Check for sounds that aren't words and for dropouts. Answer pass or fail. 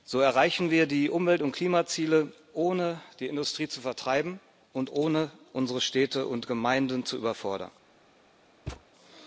fail